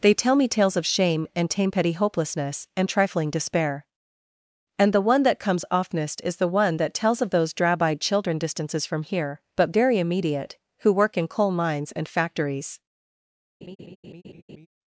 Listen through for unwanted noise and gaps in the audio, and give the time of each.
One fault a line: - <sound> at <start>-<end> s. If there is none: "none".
- laugh at 13.6-14.7 s